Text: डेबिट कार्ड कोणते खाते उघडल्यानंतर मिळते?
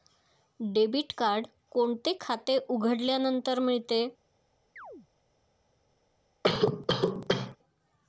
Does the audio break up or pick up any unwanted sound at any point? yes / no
yes